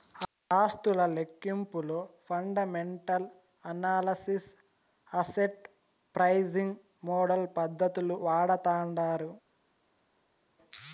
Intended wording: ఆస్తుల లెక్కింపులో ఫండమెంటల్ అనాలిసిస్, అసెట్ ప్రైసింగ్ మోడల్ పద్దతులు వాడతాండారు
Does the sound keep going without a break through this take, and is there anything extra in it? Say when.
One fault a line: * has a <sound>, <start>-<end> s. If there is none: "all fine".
all fine